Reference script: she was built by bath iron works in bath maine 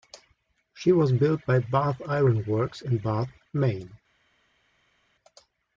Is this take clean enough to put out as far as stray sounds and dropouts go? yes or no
yes